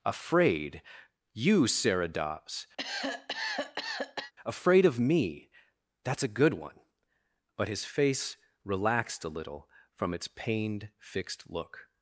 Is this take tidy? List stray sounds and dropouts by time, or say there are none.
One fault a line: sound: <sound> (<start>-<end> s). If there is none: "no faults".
sound: cough (2.8-4.3 s)